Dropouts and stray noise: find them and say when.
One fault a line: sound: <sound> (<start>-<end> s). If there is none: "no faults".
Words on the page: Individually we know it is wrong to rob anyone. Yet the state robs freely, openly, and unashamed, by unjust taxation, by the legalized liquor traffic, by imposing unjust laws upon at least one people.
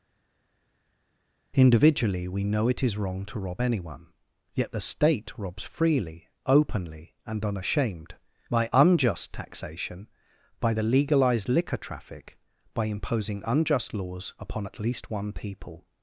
no faults